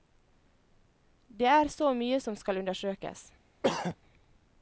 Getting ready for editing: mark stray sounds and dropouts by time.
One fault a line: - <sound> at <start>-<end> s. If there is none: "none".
- throat clearing at 3.6-4.0 s